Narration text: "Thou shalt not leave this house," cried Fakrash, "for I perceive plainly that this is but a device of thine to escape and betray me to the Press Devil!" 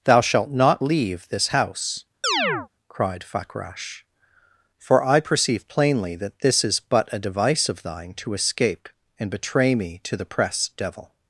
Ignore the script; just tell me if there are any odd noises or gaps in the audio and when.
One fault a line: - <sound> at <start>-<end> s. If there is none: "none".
- chirp at 2.2-2.7 s